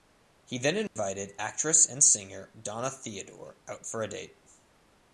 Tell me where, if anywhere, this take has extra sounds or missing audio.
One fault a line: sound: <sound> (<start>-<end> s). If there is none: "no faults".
sound: dropout (0.9-1.0 s)